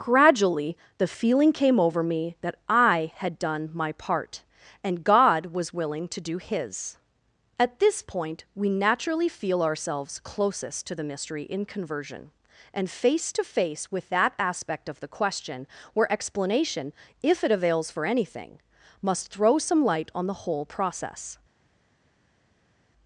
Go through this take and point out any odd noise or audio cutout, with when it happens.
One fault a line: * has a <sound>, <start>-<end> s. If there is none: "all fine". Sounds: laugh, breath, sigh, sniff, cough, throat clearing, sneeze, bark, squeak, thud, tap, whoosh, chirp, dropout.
all fine